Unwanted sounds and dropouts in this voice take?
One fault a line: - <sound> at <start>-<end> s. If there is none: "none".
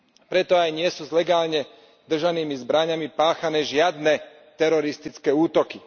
none